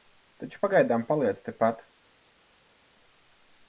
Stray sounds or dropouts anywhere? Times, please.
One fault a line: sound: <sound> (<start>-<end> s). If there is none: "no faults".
no faults